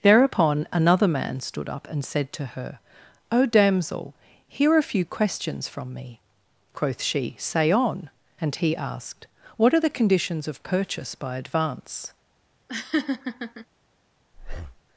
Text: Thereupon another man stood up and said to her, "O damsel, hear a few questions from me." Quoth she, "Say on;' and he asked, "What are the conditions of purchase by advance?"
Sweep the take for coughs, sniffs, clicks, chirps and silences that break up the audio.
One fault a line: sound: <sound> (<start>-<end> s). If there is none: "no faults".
sound: laugh (12.7-13.7 s)
sound: breath (14.3-14.8 s)